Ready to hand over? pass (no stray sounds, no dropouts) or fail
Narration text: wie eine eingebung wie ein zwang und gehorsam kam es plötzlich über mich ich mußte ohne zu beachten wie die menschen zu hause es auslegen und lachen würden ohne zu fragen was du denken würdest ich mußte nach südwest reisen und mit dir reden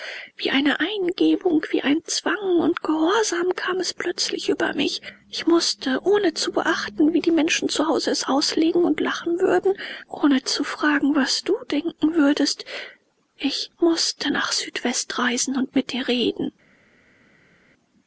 pass